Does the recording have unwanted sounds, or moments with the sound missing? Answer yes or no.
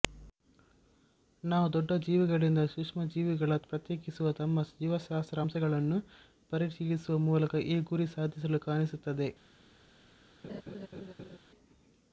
yes